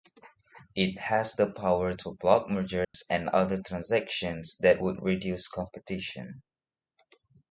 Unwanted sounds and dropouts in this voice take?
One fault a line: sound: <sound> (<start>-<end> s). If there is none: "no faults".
sound: dropout (2.8-2.9 s)